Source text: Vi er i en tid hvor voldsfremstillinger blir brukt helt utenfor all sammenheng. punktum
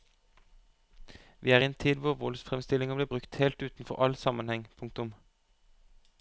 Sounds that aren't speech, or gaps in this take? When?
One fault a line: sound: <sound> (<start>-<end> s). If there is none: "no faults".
no faults